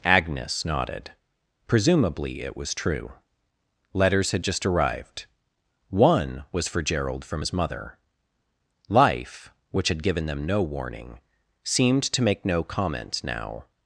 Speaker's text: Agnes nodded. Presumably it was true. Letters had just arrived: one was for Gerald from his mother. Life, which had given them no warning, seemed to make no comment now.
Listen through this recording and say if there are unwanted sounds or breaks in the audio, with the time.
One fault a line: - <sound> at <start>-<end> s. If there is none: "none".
none